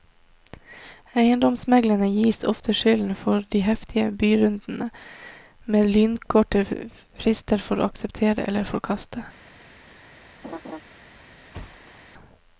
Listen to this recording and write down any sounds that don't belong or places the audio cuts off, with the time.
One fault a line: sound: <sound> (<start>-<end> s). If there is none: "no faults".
sound: laugh (10.4-10.8 s)
sound: thud (11.5-12.0 s)